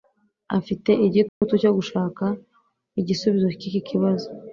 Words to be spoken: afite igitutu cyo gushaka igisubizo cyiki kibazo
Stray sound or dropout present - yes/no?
yes